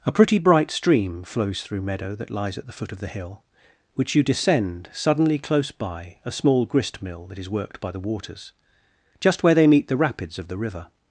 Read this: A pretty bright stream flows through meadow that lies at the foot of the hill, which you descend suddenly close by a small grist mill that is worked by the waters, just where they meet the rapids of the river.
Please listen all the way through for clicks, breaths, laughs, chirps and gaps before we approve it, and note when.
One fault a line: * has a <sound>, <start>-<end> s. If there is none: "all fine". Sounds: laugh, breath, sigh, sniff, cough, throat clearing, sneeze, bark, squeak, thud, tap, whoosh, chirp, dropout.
all fine